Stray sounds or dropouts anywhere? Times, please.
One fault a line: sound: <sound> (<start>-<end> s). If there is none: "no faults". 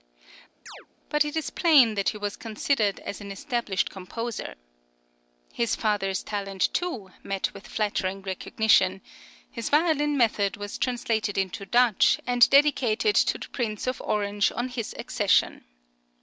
sound: chirp (0.7-0.9 s)